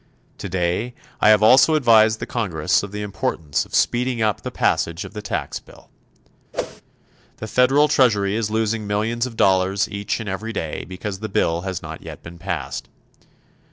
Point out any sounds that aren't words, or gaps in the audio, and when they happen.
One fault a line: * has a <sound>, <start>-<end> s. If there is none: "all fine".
* has a whoosh, 6.5-6.8 s